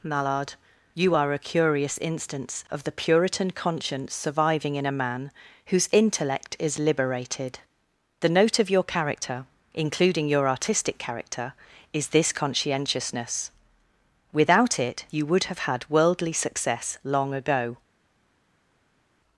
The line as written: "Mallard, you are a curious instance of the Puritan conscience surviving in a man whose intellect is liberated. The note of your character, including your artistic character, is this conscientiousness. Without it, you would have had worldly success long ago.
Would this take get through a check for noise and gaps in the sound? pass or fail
pass